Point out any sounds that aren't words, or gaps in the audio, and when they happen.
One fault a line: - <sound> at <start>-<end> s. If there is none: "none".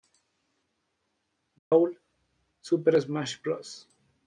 - dropout at 1.6-1.7 s